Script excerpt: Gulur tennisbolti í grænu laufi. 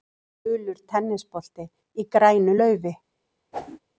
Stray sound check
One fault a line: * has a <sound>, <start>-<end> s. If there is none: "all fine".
* has a whoosh, 3.5-3.8 s